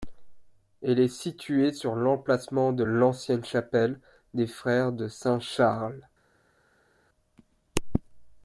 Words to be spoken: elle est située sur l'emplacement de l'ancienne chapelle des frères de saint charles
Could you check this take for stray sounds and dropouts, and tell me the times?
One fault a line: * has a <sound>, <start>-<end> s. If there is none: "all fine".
all fine